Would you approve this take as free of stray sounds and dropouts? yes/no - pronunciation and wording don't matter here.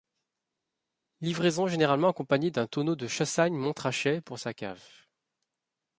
yes